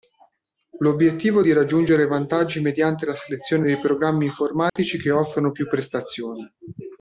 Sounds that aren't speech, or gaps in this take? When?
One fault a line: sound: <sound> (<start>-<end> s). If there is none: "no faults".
sound: dropout (4.7-4.8 s)